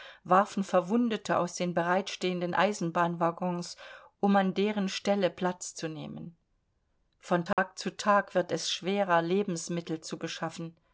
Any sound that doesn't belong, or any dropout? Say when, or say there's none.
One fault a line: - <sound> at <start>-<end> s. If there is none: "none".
- dropout at 7.5-7.6 s